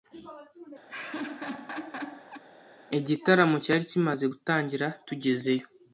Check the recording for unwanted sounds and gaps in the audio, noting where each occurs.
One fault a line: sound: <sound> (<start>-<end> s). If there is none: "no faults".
sound: laugh (0.9-2.4 s)